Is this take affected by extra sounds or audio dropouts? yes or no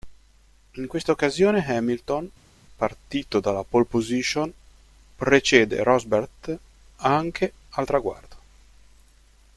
no